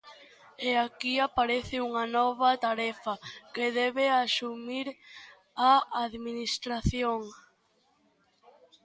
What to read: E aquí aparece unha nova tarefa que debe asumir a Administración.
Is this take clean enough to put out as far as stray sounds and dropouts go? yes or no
yes